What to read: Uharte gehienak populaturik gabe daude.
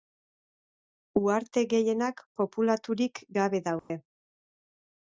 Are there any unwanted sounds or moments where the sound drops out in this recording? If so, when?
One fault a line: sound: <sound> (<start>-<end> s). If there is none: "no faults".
sound: dropout (3.8-3.9 s)